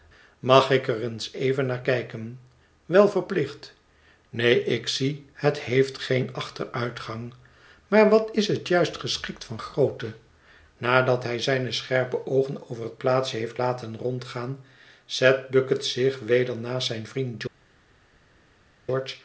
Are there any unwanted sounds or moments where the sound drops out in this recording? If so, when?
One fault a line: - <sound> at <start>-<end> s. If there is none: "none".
none